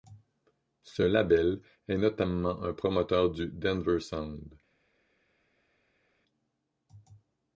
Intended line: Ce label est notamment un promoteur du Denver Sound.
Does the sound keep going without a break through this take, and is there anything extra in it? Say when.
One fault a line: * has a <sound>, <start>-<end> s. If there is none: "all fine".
all fine